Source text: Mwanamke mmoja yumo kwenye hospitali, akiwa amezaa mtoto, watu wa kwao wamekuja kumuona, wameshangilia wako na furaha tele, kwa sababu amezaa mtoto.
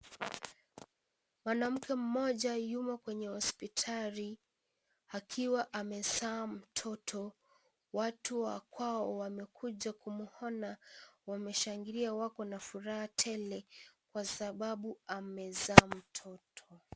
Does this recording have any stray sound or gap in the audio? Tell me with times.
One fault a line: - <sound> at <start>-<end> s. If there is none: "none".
none